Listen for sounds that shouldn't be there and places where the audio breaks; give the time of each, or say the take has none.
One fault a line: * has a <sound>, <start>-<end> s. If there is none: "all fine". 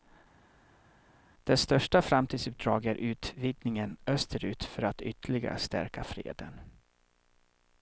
all fine